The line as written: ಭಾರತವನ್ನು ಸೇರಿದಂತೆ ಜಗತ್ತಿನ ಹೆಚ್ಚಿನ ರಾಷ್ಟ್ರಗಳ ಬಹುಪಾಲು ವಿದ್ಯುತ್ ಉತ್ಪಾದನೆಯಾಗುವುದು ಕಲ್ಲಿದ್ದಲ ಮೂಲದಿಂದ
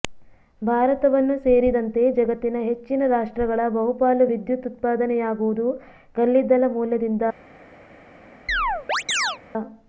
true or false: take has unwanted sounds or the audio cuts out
true